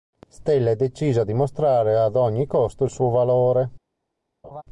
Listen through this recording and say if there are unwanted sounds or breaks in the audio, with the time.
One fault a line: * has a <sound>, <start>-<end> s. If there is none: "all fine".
* has a laugh, 4.4-4.6 s